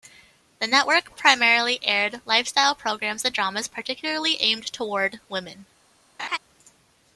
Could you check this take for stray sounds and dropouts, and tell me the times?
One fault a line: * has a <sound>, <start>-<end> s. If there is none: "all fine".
* has a laugh, 6.2-6.4 s